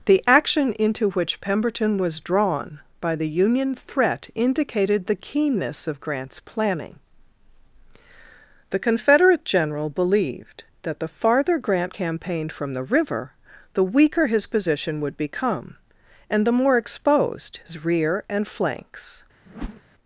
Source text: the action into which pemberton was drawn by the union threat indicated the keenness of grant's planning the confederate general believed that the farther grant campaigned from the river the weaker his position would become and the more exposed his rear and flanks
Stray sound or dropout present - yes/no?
yes